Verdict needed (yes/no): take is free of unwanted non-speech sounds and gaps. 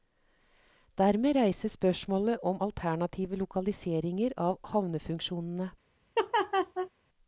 no